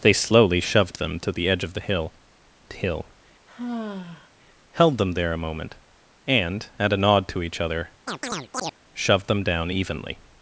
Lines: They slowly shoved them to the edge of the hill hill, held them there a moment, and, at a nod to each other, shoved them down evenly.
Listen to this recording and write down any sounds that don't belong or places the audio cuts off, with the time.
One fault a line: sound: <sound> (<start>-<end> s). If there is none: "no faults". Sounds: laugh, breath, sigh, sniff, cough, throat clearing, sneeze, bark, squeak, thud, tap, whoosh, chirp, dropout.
sound: sigh (3.5-4.3 s)
sound: chirp (8.1-8.7 s)